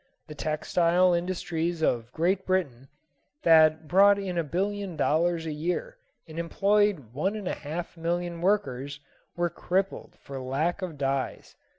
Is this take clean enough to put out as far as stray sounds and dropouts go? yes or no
yes